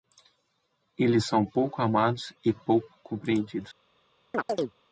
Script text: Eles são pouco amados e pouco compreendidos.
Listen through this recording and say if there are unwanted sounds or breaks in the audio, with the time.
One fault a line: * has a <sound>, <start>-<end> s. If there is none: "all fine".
* has a chirp, 4.3-4.7 s